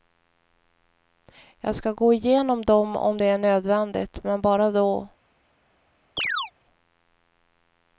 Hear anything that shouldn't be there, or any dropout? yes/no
yes